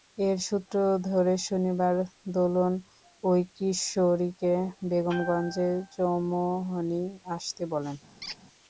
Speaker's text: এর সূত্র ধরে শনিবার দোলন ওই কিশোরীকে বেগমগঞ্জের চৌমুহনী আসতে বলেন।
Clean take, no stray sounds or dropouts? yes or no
no